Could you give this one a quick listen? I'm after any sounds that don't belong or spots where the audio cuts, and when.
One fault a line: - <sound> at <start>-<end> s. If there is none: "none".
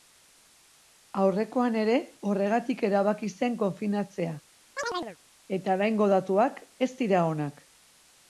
- chirp at 4.8-5.2 s